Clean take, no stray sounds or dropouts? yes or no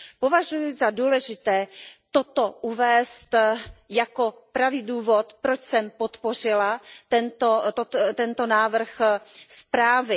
yes